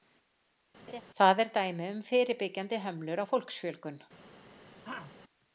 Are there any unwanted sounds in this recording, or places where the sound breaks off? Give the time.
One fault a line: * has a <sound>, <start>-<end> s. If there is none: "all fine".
* has a laugh, 0.9-1.0 s
* has a throat clearing, 4.8-5.1 s